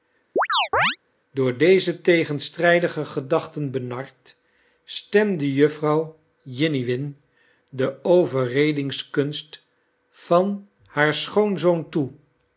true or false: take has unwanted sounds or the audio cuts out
true